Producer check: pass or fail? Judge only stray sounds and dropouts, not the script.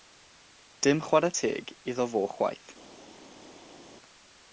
pass